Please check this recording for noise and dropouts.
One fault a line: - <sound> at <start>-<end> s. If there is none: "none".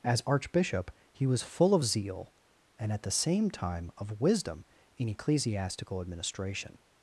none